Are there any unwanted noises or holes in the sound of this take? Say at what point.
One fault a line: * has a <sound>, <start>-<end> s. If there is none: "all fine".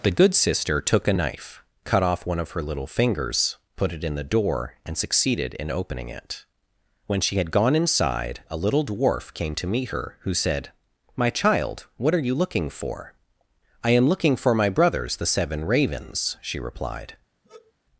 * has a sigh, 17.4-17.7 s